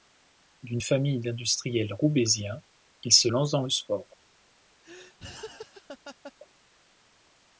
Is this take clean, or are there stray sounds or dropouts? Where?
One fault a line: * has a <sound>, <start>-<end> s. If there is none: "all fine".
* has a laugh, 4.8-6.3 s